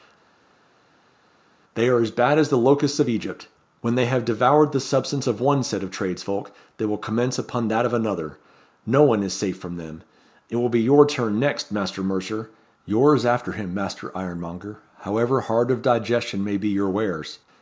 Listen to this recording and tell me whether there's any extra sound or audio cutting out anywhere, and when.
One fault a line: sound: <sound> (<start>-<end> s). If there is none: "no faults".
no faults